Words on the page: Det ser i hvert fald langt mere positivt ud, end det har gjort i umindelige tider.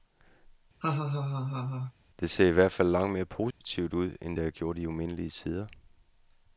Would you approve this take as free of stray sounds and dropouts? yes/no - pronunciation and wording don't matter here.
no